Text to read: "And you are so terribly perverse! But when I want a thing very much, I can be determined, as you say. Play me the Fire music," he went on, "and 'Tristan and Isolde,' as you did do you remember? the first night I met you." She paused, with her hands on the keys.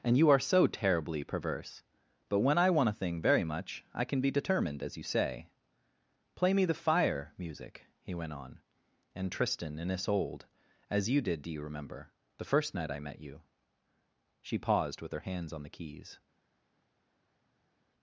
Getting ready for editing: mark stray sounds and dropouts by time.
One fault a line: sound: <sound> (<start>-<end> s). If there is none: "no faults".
no faults